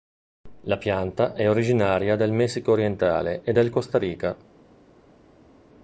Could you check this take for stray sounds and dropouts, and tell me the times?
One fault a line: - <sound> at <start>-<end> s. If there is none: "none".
none